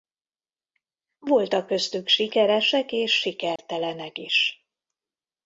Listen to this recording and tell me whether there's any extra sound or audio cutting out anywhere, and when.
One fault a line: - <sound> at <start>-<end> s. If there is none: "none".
- dropout at 3.6-3.6 s